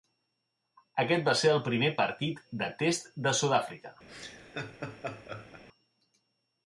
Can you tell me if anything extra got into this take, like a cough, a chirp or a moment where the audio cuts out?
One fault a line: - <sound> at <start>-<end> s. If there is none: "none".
- laugh at 4.1-5.6 s